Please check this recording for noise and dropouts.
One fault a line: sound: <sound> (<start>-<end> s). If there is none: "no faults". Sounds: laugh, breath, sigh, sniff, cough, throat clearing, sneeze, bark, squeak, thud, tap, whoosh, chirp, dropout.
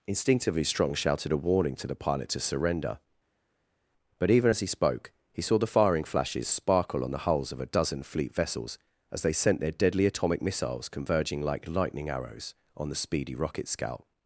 no faults